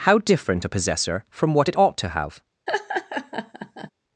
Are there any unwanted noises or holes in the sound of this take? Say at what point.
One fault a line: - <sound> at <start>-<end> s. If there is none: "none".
- laugh at 2.7-3.9 s